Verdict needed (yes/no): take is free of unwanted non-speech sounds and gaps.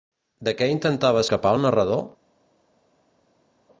yes